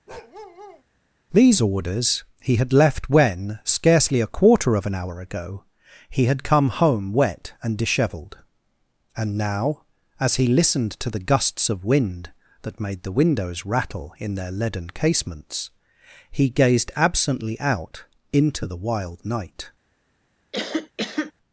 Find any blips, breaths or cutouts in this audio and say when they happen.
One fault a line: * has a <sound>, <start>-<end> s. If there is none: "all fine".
* has a bark, 0.1-0.8 s
* has a cough, 20.5-21.3 s